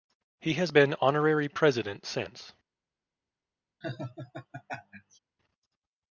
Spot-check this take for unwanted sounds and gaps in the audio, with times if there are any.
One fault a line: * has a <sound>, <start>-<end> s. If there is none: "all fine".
* has a laugh, 3.8-5.2 s